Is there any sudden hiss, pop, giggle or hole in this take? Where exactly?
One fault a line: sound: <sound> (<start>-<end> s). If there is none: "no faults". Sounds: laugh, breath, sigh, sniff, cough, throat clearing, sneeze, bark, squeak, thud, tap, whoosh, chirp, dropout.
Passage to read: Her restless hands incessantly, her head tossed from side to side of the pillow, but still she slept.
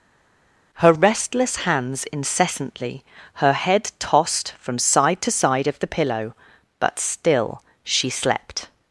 no faults